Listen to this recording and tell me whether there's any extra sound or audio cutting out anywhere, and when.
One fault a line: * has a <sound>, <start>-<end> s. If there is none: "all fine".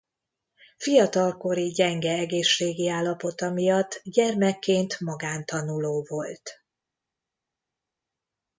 all fine